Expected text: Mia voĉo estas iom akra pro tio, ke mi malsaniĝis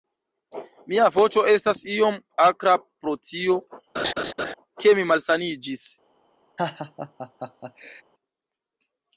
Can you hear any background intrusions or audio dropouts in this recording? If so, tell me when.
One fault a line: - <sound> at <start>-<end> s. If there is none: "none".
- laugh at 4.0-4.5 s
- laugh at 6.6-8.0 s